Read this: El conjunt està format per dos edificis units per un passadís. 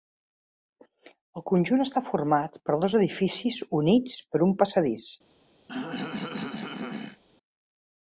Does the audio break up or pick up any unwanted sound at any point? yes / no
yes